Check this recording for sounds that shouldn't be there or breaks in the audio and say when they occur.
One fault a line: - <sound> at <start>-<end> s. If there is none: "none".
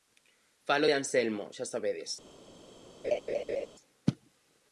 - laugh at 3.0-3.7 s